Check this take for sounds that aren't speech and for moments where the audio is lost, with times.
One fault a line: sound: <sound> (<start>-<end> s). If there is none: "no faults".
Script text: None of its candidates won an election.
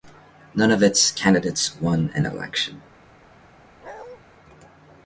sound: bark (3.8-4.2 s)